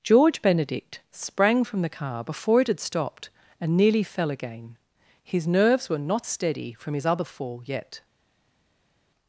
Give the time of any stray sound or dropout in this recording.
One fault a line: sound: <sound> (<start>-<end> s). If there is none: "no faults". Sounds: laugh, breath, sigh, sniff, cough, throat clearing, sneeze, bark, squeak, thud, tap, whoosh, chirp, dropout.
no faults